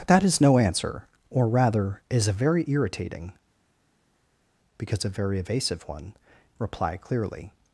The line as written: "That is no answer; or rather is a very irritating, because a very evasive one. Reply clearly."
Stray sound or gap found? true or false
false